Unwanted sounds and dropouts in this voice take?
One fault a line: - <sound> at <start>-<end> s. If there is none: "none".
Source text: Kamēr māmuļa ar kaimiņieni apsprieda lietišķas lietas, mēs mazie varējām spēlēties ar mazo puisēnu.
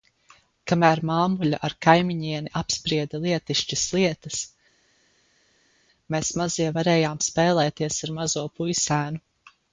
none